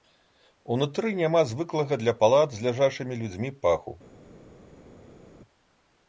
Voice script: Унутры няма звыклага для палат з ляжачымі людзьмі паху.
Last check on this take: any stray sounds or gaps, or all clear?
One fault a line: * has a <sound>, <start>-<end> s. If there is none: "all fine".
all fine